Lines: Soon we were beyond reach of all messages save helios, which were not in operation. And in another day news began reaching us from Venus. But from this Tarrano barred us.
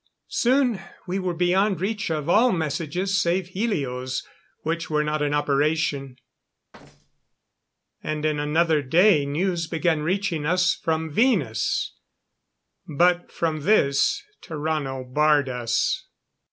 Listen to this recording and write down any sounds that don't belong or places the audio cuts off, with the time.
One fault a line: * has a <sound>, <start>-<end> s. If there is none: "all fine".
* has a thud, 6.7-7.4 s